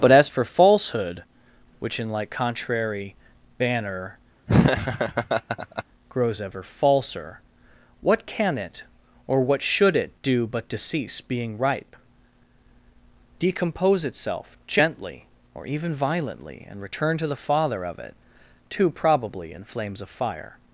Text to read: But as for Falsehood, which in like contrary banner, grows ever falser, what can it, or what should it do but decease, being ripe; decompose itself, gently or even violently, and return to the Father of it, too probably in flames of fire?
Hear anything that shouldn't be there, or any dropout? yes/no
yes